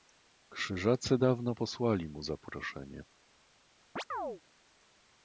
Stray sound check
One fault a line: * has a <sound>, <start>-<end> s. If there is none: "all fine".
* has a chirp, 4.0-4.4 s